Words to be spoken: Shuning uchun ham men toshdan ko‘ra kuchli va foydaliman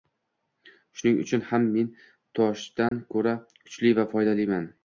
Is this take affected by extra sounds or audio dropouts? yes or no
yes